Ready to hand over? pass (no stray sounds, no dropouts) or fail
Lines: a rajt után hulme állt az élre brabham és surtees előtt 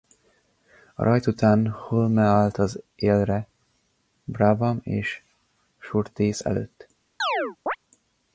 fail